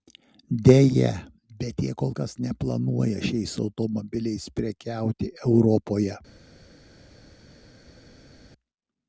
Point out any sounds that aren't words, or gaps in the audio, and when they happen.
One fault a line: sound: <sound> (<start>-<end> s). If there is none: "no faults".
no faults